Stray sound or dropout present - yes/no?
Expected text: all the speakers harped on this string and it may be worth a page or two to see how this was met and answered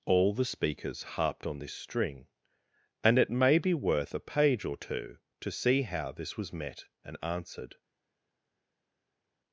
no